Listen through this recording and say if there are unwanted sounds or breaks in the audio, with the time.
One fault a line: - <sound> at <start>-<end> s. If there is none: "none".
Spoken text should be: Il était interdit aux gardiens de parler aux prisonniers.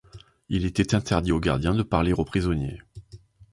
none